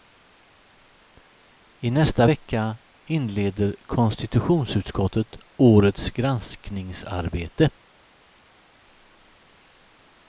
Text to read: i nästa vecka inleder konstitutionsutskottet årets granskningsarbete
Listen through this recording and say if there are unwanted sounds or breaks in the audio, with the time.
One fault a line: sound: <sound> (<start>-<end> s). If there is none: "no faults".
no faults